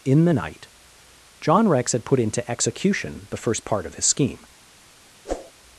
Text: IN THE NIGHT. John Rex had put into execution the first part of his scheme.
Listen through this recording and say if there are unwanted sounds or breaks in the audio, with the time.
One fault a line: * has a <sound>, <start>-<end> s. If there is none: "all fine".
* has a whoosh, 5.2-5.5 s